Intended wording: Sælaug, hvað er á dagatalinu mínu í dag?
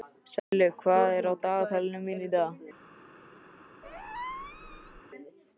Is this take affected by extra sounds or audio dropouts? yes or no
yes